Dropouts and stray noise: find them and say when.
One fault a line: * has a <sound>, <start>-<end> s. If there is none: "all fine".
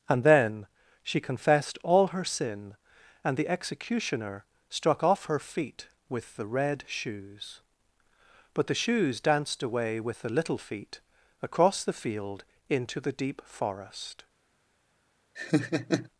* has a laugh, 15.4-16.1 s